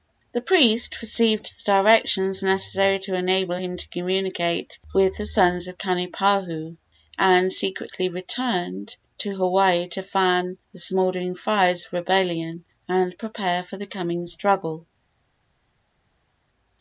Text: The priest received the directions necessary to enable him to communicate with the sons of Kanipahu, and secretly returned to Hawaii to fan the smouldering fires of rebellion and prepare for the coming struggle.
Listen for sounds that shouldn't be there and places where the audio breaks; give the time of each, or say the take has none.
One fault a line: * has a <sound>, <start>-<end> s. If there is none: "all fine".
all fine